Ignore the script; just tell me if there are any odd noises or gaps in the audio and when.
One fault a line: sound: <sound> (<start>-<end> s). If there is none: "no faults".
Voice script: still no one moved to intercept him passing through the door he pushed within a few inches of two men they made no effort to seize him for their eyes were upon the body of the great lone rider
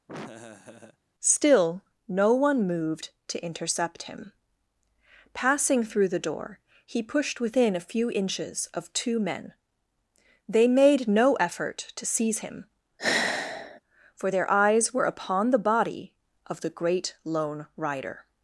sound: laugh (0.1-1.0 s)
sound: sigh (13.0-13.8 s)